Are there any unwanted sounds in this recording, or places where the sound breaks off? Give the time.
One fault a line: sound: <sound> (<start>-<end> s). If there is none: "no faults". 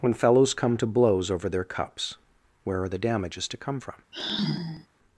sound: sigh (4.1-4.9 s)